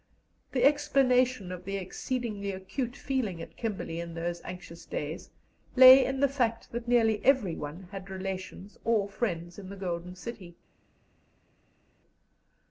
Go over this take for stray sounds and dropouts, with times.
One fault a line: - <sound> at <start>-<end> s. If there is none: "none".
none